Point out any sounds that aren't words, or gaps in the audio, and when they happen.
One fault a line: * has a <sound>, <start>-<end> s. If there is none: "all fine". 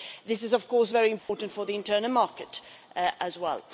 * has a dropout, 1.2-1.3 s